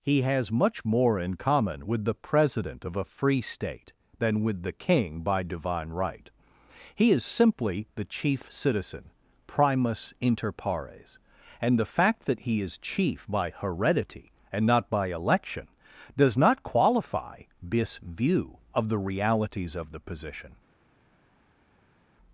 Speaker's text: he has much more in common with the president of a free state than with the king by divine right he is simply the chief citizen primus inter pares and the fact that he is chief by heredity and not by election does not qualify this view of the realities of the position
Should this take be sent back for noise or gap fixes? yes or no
no